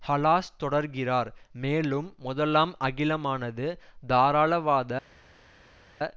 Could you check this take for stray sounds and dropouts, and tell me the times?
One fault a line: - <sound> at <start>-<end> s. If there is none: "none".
none